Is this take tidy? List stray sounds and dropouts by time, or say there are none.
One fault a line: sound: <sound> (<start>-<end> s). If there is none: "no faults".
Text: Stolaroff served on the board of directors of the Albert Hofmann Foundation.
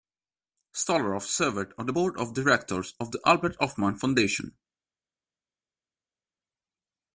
no faults